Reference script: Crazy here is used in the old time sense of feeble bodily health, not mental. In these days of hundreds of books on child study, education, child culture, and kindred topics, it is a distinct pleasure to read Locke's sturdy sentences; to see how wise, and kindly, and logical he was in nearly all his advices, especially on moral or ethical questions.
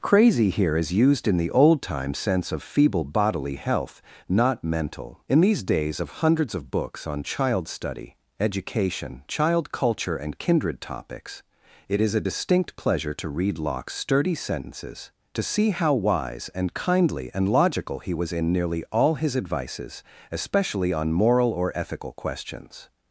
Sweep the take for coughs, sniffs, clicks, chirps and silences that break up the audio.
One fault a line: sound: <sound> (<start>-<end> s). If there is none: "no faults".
no faults